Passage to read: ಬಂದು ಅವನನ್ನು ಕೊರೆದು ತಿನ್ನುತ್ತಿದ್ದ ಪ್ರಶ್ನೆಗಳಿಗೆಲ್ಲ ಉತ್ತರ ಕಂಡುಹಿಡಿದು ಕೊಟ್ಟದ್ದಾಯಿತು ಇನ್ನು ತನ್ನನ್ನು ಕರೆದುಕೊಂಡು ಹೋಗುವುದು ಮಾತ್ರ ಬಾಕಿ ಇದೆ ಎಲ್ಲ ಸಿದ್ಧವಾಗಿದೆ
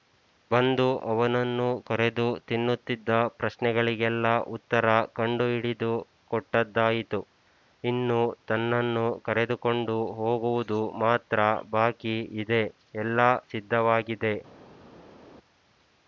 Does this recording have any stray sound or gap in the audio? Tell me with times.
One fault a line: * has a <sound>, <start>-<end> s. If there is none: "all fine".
all fine